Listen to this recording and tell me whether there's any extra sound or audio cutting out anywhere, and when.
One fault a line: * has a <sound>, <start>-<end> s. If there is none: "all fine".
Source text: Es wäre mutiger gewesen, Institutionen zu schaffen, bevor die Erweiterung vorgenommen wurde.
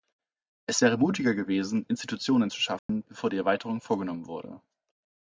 * has a dropout, 2.8-2.9 s